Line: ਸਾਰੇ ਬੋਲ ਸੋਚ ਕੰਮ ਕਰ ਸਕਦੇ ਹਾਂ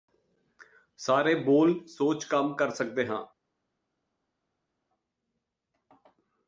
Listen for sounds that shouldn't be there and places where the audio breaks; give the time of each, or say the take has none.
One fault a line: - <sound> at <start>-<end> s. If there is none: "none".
none